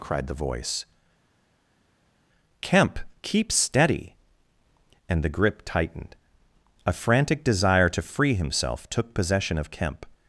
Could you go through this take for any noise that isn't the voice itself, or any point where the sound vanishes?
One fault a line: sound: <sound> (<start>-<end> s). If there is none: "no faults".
no faults